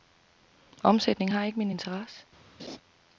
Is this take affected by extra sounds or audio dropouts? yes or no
yes